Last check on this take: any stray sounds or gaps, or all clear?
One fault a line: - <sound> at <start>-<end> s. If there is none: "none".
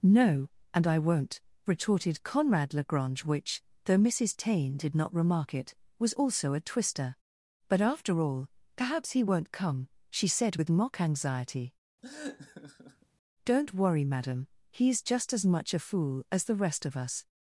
- laugh at 12.0-13.1 s